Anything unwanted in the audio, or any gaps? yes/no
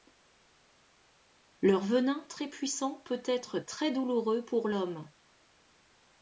no